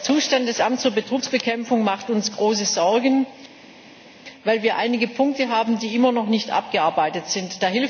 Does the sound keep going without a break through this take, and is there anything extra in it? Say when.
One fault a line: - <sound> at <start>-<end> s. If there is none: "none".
none